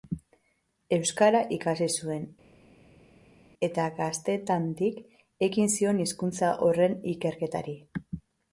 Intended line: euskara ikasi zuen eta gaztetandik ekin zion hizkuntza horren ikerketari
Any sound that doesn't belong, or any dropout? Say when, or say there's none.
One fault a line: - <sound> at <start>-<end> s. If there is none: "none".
none